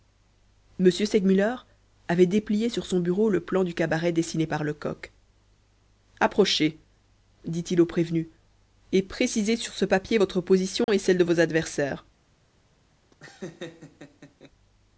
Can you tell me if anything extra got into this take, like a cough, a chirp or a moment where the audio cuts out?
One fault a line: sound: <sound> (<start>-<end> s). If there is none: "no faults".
sound: dropout (10.8-10.9 s)
sound: laugh (13.1-14.5 s)